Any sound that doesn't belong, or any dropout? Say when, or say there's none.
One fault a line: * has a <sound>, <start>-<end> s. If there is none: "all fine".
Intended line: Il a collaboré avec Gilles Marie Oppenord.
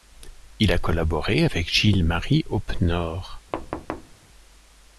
* has a thud, 3.5-4.2 s